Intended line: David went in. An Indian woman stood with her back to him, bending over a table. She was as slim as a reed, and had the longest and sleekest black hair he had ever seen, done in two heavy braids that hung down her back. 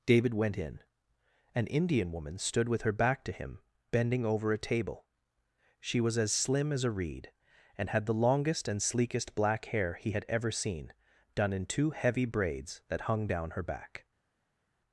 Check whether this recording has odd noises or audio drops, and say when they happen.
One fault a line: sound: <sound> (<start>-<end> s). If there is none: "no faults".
no faults